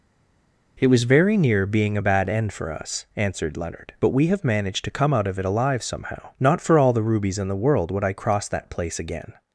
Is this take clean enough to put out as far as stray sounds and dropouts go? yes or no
yes